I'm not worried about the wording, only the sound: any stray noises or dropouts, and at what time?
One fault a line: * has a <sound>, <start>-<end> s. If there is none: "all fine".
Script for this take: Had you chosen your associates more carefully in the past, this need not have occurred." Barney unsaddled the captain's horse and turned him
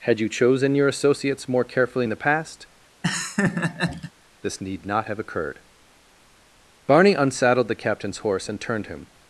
* has a laugh, 3.0-4.1 s